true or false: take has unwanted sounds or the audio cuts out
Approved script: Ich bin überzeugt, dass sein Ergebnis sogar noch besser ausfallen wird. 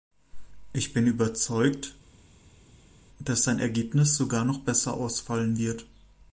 false